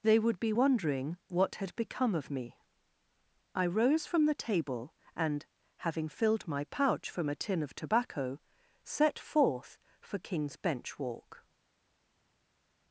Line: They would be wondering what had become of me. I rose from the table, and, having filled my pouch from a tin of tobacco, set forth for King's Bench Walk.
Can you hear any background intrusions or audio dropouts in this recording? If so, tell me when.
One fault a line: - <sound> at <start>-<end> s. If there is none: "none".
none